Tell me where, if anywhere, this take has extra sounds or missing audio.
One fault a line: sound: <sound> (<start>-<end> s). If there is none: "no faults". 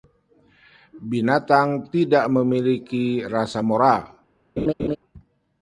sound: laugh (4.6-5.0 s)